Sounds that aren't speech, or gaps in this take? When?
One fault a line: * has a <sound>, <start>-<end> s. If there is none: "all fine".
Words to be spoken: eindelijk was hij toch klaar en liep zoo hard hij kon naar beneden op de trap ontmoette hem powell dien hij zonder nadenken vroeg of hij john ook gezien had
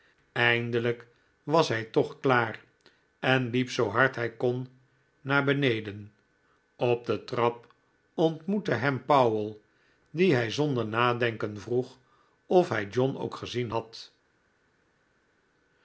all fine